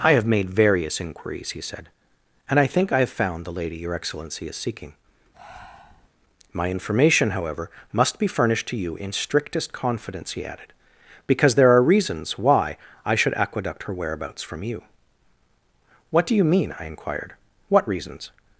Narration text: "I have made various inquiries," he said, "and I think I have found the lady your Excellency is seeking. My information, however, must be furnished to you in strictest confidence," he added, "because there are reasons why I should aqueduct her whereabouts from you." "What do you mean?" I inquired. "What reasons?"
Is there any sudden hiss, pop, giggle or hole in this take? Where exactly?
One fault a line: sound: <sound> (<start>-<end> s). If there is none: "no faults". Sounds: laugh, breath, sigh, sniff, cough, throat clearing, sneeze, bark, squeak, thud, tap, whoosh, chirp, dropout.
sound: breath (5.3-6.1 s)